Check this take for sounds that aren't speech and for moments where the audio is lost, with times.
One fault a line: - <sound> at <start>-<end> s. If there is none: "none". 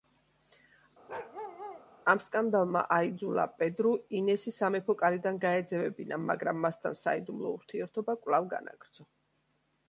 - bark at 1.1-1.8 s